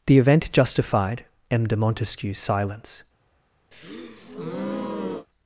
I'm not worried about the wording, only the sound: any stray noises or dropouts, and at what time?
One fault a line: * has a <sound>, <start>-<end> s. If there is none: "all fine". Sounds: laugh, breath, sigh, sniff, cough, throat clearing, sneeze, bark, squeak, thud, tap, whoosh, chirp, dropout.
* has a breath, 3.7-5.3 s